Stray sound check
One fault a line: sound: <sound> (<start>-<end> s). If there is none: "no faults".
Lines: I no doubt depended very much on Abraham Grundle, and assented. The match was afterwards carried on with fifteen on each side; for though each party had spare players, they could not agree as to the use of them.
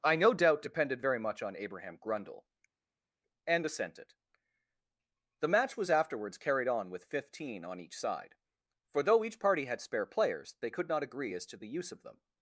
no faults